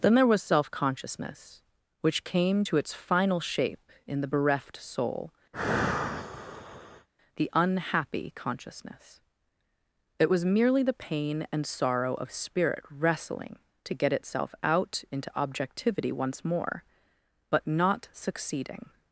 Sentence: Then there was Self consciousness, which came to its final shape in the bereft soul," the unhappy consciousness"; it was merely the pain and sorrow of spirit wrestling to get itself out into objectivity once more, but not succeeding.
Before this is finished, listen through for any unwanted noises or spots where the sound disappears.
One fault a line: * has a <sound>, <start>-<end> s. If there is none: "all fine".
* has a sigh, 5.5-7.1 s